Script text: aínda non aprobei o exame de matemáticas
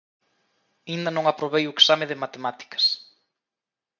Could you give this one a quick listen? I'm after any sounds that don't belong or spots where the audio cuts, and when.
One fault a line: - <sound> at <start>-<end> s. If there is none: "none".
none